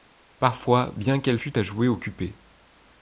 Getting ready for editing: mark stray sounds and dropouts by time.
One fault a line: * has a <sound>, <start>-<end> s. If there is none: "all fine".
all fine